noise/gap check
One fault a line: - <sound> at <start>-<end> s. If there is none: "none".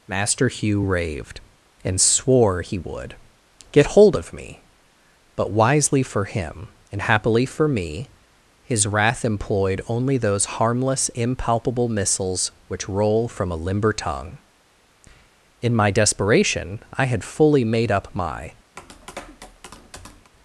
- tap at 18.8-20.3 s